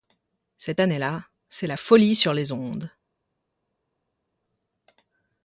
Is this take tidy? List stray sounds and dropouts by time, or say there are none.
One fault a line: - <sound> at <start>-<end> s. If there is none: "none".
none